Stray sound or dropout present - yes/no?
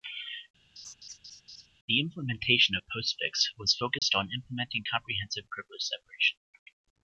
yes